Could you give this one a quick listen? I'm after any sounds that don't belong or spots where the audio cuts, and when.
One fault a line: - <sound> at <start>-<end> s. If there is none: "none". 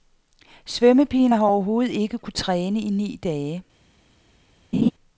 - laugh at 4.7-4.9 s